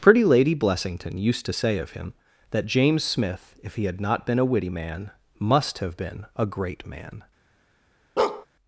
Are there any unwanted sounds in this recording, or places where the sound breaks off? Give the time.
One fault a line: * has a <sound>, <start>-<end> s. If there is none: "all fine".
* has a bark, 8.2-8.5 s